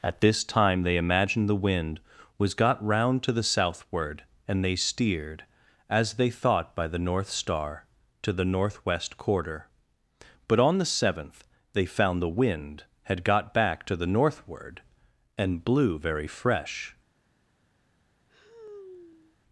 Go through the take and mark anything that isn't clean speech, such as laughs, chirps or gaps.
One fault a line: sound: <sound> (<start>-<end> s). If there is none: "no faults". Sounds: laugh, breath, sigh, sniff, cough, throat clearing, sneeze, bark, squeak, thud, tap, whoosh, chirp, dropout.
sound: sigh (18.3-19.4 s)